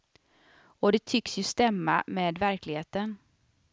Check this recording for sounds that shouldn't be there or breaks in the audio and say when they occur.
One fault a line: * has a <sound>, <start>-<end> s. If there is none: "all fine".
all fine